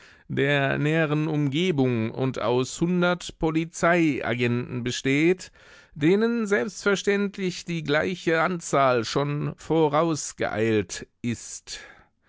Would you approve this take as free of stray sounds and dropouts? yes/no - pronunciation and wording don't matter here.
yes